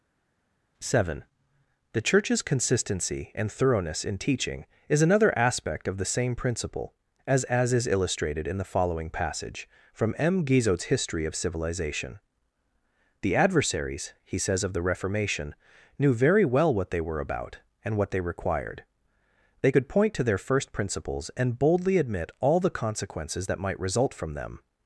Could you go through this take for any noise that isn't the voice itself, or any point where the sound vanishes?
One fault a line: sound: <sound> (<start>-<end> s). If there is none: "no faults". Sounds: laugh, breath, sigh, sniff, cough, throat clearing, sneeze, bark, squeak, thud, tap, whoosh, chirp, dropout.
no faults